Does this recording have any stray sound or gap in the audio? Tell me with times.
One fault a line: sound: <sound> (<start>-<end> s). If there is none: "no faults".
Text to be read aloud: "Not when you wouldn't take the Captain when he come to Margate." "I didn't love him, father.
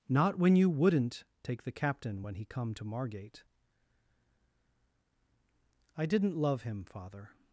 no faults